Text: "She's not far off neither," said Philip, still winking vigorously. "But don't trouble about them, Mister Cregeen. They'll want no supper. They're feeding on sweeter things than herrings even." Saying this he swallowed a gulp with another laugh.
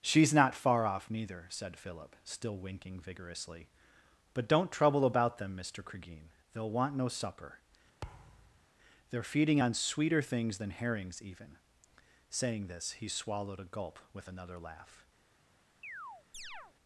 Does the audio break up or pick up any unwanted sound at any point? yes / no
yes